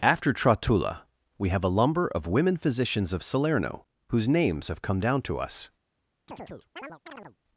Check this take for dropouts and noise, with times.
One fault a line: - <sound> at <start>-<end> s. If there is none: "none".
- chirp at 6.3-7.4 s